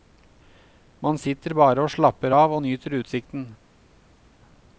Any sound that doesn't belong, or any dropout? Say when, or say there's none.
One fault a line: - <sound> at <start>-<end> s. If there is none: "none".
none